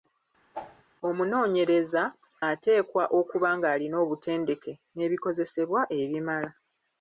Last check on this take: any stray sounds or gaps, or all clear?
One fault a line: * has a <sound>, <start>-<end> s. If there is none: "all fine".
* has a whoosh, 0.5-0.8 s